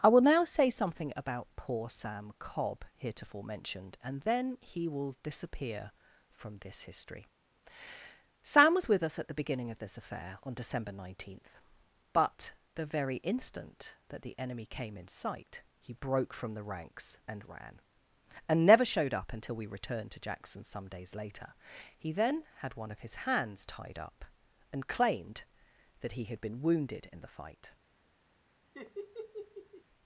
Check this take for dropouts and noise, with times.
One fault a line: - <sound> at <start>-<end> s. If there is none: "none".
- laugh at 28.7-29.8 s